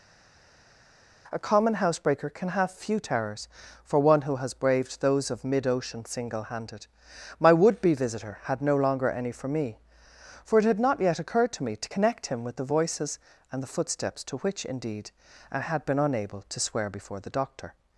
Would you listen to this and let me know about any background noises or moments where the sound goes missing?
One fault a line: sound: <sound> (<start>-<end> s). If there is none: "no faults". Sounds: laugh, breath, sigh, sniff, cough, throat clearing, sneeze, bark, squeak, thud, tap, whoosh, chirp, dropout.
no faults